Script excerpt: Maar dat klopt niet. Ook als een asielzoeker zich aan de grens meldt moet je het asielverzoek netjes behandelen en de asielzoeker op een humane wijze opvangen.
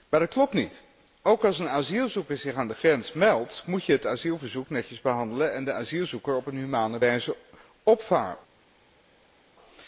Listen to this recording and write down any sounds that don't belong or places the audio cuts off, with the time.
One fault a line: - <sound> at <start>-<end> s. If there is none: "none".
none